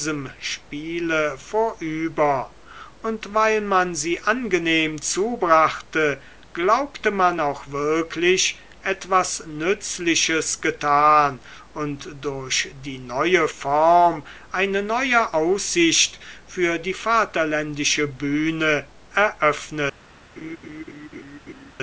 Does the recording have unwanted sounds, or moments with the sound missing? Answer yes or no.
yes